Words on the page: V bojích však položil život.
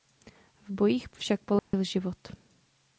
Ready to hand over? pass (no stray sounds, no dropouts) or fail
fail